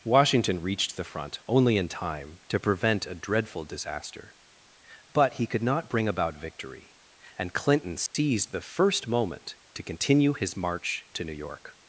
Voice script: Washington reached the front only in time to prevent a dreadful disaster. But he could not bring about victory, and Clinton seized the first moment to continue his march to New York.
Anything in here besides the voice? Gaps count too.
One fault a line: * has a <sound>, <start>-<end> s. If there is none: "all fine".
* has a dropout, 8.1-8.1 s